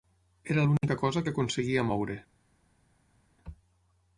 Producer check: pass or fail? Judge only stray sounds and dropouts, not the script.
pass